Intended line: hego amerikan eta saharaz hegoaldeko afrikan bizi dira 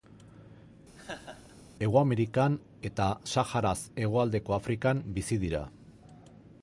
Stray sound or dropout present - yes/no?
yes